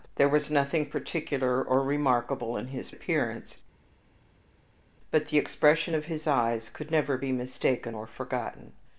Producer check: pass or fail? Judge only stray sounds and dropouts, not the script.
pass